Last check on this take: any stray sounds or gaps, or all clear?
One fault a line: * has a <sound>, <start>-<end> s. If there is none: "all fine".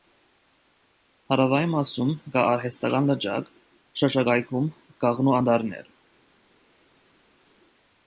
all fine